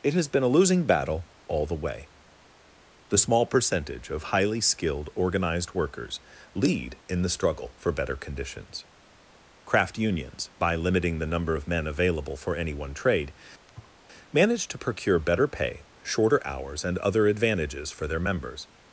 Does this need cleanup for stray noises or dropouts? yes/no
yes